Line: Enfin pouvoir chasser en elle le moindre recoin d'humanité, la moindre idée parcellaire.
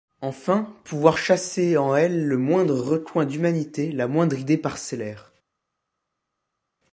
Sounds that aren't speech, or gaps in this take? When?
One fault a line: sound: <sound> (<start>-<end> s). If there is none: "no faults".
no faults